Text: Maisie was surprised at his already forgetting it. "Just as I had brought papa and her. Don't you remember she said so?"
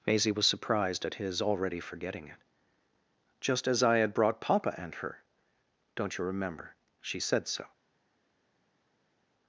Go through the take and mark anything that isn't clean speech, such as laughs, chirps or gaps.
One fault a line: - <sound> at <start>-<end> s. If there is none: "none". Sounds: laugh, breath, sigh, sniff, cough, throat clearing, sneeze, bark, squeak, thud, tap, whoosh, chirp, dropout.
none